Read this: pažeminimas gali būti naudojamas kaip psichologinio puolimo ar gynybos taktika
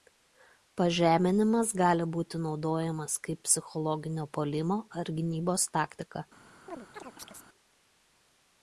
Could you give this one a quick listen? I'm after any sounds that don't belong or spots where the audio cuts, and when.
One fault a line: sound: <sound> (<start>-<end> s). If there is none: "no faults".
sound: chirp (6.7-7.5 s)